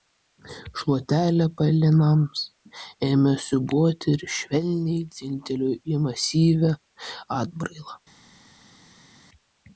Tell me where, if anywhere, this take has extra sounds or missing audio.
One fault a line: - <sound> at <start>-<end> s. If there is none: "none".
none